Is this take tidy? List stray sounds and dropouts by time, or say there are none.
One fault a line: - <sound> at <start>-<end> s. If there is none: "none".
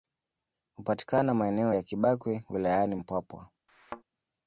- thud at 3.7-4.0 s